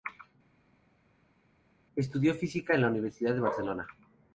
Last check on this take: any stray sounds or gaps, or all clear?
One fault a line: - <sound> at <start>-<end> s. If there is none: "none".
none